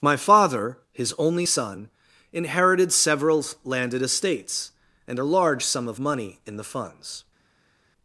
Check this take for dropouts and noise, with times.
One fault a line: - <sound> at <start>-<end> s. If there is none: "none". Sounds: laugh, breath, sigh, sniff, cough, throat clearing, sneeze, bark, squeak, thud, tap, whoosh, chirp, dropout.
none